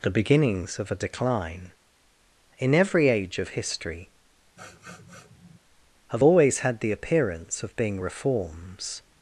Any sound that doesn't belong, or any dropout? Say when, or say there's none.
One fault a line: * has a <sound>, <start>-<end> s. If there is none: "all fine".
* has a sniff, 4.6-5.6 s